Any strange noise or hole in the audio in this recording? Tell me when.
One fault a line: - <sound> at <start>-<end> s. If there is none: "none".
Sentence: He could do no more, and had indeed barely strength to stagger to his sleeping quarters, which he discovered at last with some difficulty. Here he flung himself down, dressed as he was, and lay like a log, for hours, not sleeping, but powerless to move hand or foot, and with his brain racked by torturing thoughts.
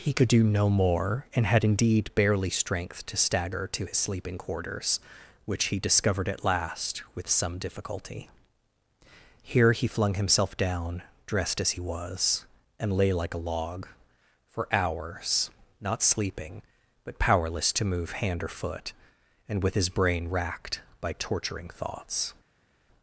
none